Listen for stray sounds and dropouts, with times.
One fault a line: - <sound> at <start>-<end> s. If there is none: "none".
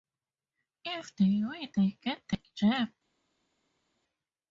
none